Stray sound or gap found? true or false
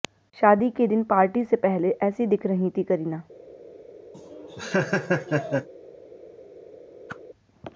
true